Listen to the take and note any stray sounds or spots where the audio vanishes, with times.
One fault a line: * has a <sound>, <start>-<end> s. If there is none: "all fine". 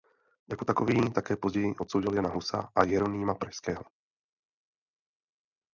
all fine